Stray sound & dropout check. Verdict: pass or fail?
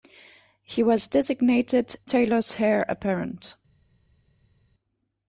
pass